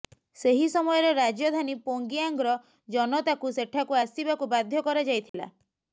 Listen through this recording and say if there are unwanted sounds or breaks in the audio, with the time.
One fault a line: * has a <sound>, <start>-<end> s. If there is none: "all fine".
* has a dropout, 5.3-5.3 s